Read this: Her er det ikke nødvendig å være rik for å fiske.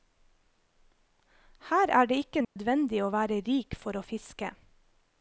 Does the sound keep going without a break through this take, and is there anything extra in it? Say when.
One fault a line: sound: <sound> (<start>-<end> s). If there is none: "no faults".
sound: dropout (2.4-2.6 s)